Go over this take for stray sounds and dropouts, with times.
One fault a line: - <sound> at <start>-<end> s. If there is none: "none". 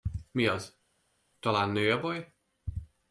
none